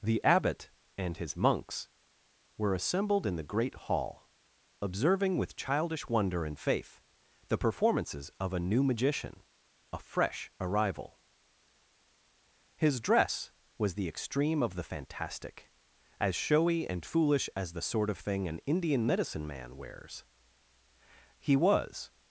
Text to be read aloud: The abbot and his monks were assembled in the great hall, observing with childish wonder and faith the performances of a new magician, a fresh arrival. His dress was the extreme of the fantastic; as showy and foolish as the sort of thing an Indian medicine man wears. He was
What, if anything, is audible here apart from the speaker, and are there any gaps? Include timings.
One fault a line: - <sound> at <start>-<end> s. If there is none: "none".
none